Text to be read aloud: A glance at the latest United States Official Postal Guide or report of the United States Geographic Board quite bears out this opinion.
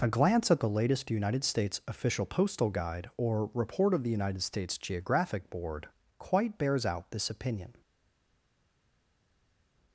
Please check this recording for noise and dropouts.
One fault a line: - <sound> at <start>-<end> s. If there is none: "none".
none